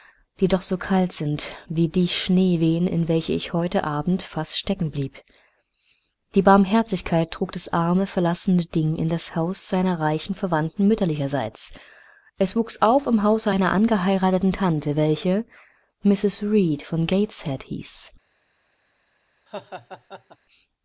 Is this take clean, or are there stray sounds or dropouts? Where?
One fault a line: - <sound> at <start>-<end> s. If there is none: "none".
- laugh at 19.5-20.4 s